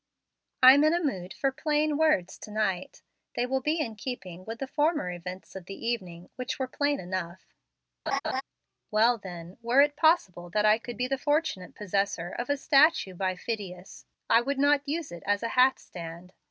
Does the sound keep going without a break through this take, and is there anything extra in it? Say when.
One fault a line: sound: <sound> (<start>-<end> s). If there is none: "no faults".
sound: laugh (8.1-8.4 s)